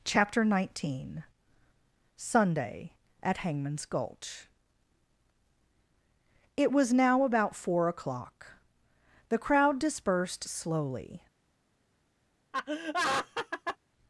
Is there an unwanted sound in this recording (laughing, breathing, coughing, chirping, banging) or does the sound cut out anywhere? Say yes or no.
yes